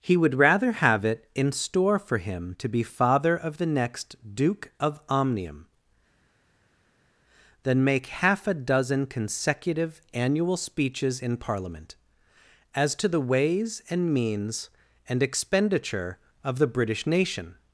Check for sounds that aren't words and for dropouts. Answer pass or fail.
pass